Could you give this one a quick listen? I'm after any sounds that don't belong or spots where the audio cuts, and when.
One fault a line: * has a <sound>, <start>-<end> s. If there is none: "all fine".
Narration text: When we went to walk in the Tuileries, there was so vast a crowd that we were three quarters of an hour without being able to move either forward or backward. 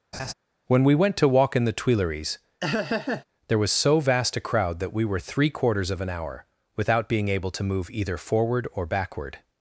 * has a laugh, 0.1-0.3 s
* has a laugh, 2.6-3.2 s